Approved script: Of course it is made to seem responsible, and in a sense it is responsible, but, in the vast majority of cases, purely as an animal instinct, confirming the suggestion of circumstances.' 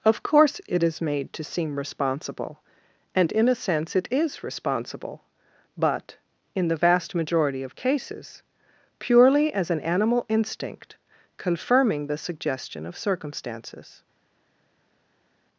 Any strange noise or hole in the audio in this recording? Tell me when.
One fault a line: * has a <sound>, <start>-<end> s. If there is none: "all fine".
all fine